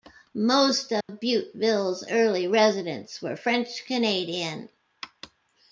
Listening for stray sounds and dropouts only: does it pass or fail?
fail